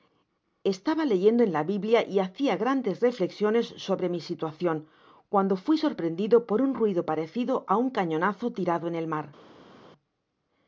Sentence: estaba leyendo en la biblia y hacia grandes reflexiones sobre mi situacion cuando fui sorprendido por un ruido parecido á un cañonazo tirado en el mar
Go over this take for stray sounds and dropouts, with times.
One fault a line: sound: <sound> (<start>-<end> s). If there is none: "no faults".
no faults